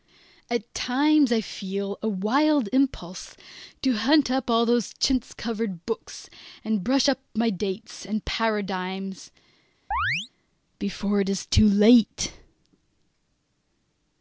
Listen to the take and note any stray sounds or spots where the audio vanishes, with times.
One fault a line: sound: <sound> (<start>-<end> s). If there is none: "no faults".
sound: chirp (9.9-10.3 s)